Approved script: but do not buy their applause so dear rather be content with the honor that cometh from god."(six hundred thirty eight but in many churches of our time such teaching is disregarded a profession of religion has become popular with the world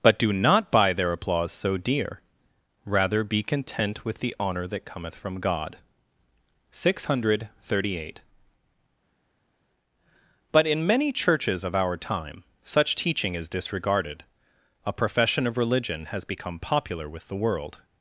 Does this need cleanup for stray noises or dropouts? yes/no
no